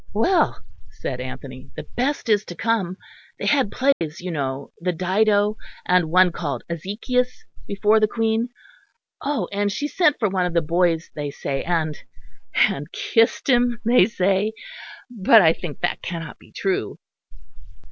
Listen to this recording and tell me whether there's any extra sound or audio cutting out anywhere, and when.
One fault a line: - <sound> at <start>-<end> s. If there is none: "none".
- dropout at 3.9-4.0 s